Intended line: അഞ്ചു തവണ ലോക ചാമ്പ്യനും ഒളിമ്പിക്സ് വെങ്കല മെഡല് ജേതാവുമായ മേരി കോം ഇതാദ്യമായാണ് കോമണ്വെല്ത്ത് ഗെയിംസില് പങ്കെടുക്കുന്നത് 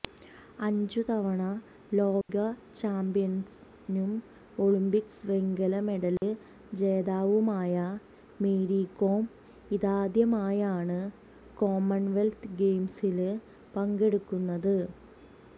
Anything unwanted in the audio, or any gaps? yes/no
yes